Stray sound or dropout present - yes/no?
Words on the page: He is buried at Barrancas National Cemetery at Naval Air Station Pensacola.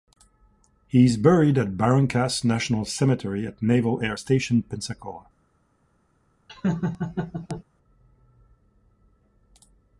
yes